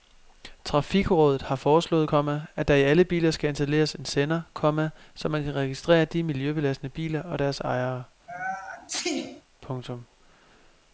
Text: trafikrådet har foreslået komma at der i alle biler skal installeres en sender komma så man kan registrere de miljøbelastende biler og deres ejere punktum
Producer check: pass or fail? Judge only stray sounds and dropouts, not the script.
fail